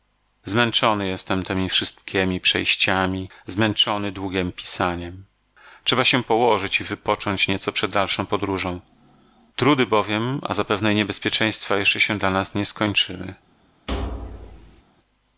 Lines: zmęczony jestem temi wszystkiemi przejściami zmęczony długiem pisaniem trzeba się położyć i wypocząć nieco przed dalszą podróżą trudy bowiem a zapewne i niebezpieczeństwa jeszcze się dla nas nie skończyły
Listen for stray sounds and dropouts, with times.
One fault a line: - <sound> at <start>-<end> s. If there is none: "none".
- thud at 13.9-14.8 s